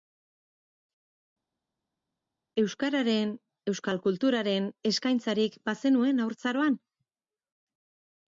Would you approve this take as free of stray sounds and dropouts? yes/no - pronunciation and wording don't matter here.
yes